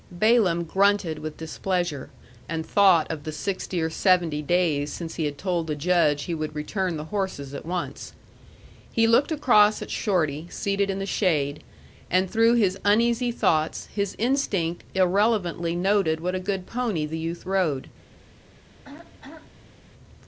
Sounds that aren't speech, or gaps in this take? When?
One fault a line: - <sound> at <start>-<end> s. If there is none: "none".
- throat clearing at 18.7-19.8 s